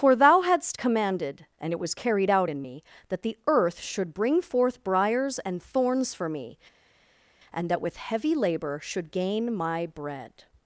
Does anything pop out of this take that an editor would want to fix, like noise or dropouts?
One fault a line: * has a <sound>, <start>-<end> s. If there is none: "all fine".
all fine